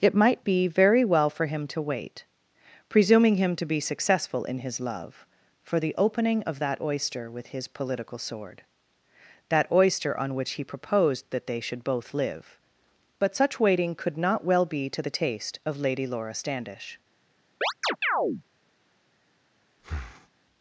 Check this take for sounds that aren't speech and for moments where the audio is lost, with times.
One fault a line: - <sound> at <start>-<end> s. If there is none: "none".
- chirp at 17.6-18.4 s
- breath at 19.8-20.3 s